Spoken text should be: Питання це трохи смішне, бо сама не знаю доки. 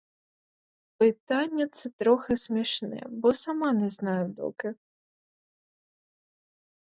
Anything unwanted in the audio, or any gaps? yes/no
no